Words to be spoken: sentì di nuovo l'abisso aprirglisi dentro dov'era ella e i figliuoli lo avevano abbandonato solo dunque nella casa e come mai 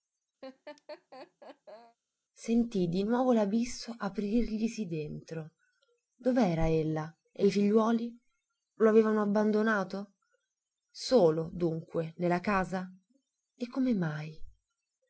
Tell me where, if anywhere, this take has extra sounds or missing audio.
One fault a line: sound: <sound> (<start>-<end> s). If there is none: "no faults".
sound: laugh (0.4-2.0 s)